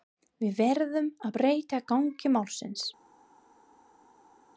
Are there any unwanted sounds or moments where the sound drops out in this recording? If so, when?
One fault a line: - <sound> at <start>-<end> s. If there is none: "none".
none